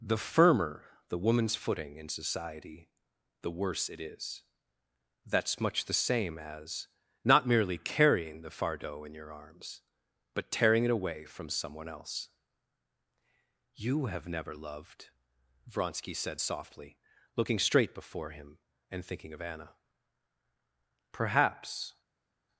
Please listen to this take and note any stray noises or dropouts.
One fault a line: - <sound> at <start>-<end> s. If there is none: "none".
none